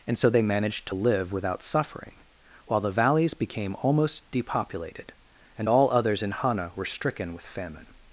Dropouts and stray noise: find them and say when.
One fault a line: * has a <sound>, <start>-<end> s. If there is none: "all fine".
all fine